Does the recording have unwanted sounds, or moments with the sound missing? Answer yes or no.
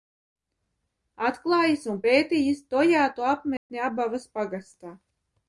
yes